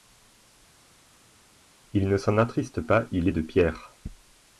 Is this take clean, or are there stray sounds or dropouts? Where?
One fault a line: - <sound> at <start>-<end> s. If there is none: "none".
none